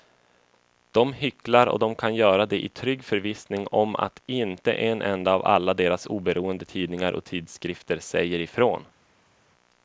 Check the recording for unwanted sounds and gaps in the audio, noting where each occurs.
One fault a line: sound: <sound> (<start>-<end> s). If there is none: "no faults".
no faults